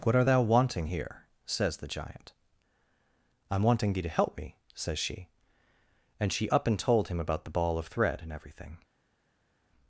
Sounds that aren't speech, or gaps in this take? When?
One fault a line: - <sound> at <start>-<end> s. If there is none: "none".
none